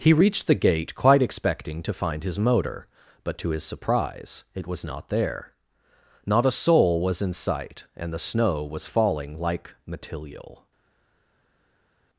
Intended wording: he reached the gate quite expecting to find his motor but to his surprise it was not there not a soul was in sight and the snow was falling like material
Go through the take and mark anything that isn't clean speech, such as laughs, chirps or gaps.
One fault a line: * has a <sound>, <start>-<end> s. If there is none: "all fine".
all fine